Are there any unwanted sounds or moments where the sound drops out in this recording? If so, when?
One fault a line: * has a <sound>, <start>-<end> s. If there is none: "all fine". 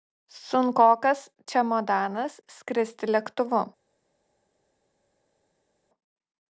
all fine